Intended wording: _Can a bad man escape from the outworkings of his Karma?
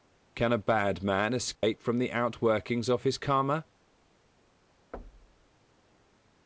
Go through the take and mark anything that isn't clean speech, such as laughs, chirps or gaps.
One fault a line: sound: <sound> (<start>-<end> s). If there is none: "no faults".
sound: dropout (1.6-1.6 s)
sound: thud (4.9-5.5 s)